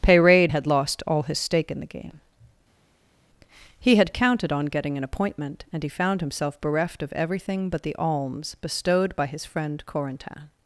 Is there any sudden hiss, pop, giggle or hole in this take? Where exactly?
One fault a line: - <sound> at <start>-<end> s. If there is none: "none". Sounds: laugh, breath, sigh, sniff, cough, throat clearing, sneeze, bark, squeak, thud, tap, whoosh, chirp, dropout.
none